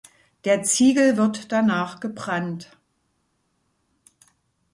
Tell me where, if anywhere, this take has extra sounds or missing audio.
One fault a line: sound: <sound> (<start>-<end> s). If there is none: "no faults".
no faults